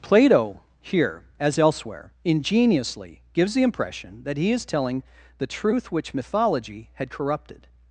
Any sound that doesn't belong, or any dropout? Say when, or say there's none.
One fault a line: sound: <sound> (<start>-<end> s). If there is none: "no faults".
no faults